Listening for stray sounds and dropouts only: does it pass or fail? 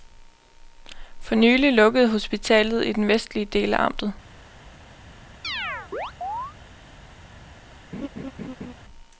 fail